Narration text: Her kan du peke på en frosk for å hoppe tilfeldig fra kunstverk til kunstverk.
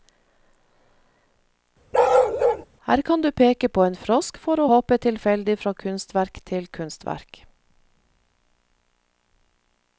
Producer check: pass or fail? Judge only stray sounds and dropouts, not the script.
fail